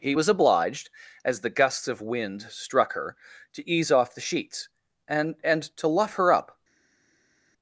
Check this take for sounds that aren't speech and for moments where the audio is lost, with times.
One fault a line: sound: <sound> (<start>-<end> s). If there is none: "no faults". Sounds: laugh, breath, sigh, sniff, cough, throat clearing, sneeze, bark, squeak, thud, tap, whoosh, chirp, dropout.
no faults